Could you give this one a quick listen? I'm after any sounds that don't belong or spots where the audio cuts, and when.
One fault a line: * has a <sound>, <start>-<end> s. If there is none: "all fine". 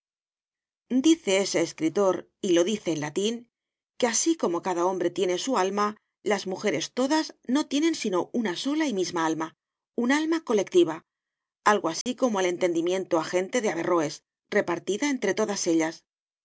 * has a dropout, 12.0-12.1 s